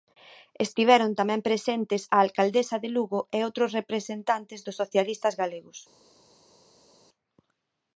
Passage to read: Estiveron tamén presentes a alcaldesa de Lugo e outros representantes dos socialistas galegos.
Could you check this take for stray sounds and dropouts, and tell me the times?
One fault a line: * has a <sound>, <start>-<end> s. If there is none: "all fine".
all fine